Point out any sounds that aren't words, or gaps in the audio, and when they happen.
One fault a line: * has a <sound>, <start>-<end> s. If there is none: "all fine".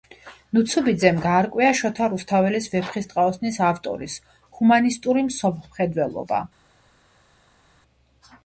all fine